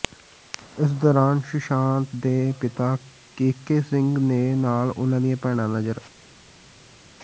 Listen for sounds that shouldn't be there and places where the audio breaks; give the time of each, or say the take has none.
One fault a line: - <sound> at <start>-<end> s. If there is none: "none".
none